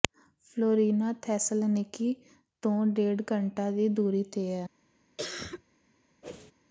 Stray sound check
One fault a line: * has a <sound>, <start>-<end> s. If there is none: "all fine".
* has a cough, 5.2-5.6 s
* has a whoosh, 6.2-6.5 s